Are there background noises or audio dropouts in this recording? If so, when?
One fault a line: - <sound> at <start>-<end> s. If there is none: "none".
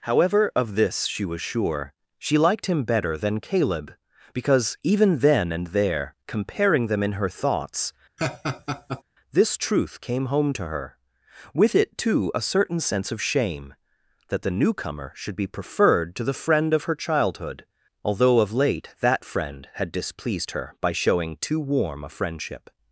- laugh at 8.2-9.0 s